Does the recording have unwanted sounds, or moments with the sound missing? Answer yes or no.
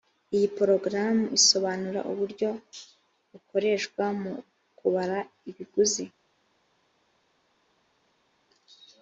no